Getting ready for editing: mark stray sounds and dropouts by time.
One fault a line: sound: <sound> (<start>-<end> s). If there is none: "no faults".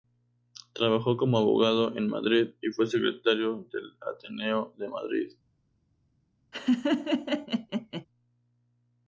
sound: laugh (6.5-8.1 s)